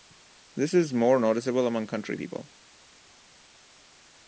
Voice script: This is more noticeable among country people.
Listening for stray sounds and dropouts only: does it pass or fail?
pass